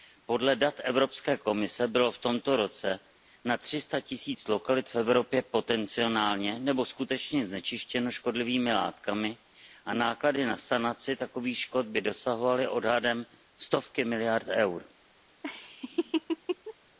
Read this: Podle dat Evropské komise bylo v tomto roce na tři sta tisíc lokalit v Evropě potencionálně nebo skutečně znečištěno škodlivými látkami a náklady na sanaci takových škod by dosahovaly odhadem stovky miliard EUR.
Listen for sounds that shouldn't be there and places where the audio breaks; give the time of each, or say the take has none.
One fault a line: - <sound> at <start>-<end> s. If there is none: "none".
- laugh at 15.4-16.7 s